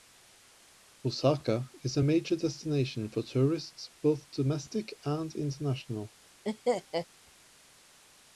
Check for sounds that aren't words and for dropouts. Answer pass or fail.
fail